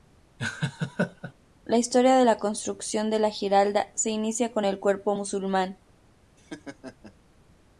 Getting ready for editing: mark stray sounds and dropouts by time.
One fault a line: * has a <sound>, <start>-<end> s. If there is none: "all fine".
* has a laugh, 0.4-1.3 s
* has a laugh, 6.4-7.2 s